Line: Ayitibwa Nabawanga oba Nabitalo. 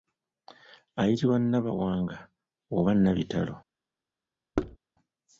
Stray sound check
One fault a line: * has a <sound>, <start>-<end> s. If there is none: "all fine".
* has a thud, 4.6-4.8 s